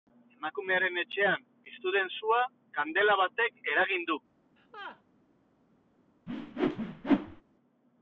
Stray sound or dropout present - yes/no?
yes